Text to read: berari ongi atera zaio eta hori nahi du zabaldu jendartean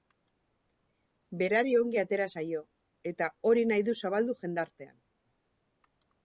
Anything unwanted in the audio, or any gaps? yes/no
no